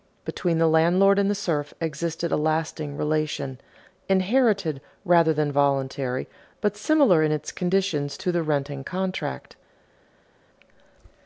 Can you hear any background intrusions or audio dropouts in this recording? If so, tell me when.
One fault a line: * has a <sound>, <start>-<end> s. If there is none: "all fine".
all fine